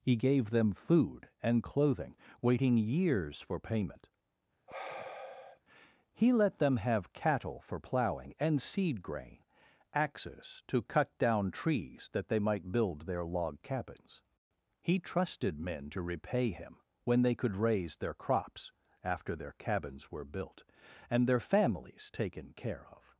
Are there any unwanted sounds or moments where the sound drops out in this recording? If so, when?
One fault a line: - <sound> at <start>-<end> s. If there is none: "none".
- sigh at 4.7-5.6 s